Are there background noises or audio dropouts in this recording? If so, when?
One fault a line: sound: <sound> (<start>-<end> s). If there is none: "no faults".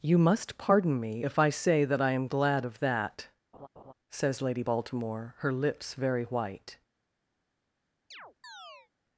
sound: laugh (3.5-3.9 s)
sound: chirp (8.1-8.9 s)